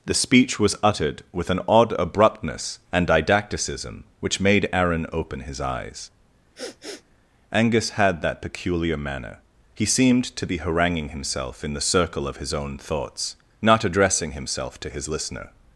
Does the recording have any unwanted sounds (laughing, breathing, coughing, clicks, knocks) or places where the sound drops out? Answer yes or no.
yes